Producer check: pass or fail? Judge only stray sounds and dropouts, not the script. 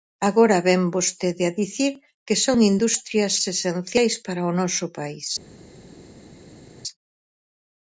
pass